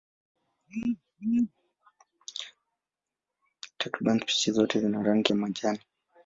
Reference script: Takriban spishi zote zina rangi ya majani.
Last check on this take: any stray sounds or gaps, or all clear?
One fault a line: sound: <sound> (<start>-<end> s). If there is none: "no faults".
no faults